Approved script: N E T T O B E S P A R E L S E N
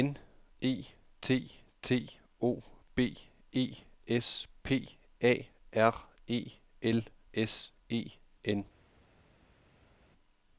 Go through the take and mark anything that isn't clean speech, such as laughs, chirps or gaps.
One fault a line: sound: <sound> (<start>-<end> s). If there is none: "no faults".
no faults